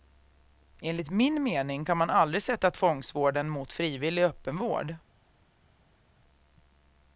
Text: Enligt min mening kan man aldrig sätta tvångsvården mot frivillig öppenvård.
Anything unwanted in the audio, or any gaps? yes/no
no